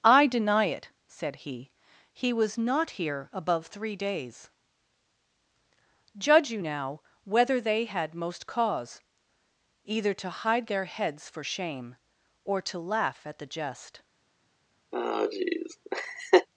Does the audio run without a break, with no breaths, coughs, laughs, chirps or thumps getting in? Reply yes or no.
no